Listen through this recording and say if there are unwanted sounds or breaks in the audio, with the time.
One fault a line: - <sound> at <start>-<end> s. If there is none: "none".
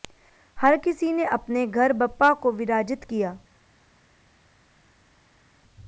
none